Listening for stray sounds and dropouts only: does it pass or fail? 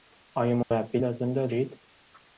fail